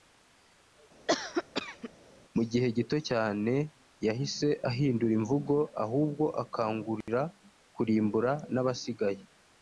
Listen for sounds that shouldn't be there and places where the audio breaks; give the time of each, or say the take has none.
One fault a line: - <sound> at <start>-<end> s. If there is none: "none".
- cough at 1.1-1.9 s
- dropout at 7.0-7.1 s